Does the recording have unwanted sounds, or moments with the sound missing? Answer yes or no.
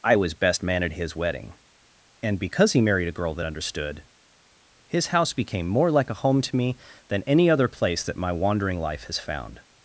no